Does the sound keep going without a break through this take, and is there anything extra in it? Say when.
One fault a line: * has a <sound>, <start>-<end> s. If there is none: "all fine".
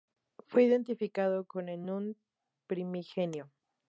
all fine